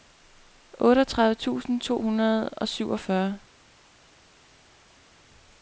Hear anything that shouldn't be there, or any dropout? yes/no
no